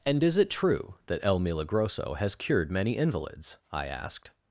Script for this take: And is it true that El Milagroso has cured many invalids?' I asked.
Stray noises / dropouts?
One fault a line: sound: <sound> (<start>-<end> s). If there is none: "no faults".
no faults